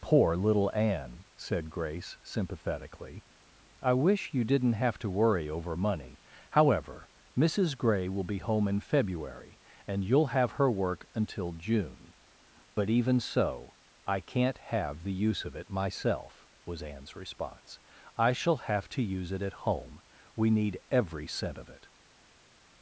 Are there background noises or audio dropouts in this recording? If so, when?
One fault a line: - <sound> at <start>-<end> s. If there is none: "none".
none